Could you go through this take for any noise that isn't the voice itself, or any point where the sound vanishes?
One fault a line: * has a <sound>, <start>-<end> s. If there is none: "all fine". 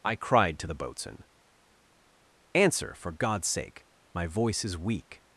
all fine